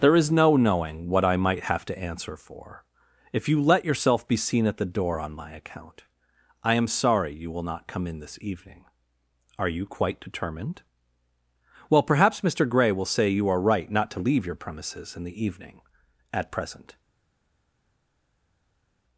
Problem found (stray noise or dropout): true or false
false